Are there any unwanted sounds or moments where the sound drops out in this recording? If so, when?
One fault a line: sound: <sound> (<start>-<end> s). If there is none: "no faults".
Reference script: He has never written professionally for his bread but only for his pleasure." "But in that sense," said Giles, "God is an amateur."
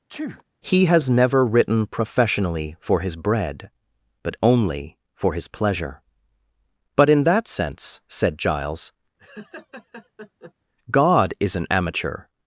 sound: sneeze (0.1-0.4 s)
sound: laugh (9.2-10.5 s)